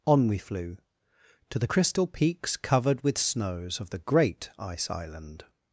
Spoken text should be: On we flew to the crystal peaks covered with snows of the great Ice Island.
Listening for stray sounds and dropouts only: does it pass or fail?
pass